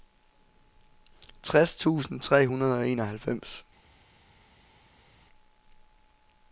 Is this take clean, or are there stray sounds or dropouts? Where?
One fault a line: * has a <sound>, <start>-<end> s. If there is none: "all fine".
all fine